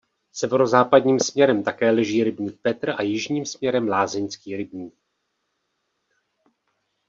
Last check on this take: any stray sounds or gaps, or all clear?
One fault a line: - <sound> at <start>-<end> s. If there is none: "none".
none